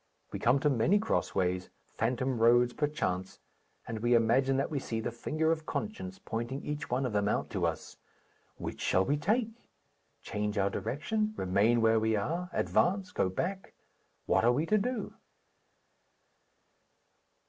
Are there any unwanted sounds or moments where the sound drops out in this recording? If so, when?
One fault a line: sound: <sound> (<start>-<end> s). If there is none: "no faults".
no faults